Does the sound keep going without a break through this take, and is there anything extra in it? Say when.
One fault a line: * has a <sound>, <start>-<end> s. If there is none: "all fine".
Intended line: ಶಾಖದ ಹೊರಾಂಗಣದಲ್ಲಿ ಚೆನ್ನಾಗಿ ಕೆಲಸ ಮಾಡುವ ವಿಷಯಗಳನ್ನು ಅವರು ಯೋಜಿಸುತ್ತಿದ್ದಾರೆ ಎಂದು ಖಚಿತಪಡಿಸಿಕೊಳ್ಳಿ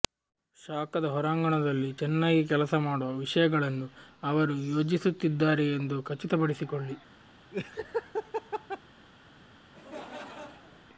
* has a laugh, 7.5-8.8 s
* has a laugh, 9.7-10.9 s